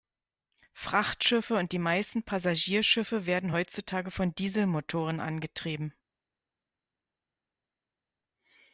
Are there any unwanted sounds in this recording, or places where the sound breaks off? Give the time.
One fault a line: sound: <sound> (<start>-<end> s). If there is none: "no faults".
no faults